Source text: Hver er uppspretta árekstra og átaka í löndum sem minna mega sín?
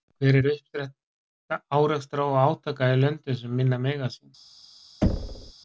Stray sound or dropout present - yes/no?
yes